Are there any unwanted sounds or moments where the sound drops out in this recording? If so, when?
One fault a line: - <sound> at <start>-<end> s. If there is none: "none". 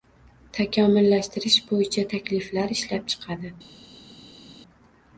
none